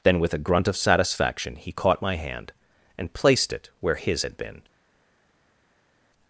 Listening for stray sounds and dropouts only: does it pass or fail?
pass